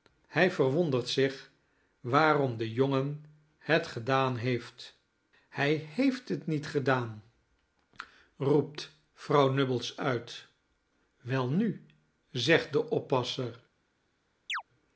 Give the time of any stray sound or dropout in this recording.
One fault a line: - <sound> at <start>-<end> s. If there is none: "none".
- chirp at 14.5-14.6 s